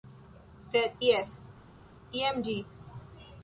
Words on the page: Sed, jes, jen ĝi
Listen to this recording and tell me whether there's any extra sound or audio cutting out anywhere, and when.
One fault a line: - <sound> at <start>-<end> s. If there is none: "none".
none